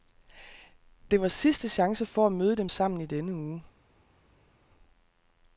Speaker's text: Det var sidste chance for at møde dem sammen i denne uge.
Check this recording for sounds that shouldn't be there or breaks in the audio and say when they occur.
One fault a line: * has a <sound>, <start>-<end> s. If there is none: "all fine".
all fine